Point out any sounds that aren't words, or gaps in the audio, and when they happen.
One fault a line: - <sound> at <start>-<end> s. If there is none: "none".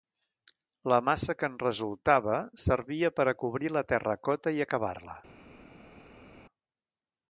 none